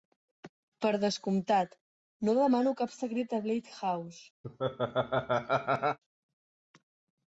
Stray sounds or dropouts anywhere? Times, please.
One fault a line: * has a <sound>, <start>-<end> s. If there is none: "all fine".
* has a laugh, 4.4-6.0 s